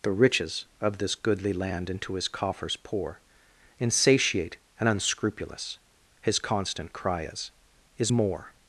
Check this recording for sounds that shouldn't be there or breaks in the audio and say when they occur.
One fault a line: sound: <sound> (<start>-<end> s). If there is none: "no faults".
no faults